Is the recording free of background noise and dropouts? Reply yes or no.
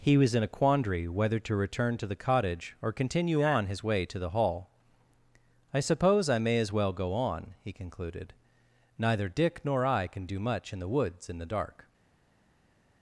yes